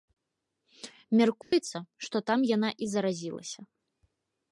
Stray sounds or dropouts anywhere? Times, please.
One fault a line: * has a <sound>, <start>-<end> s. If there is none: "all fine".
* has a dropout, 1.4-1.5 s